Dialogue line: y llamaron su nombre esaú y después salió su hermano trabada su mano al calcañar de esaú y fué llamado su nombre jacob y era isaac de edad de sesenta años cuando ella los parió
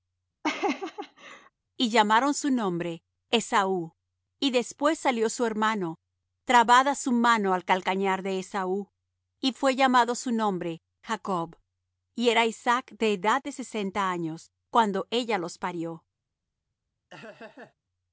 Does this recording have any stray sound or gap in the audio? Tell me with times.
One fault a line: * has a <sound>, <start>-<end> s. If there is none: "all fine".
* has a laugh, 0.4-1.5 s
* has a laugh, 17.1-17.7 s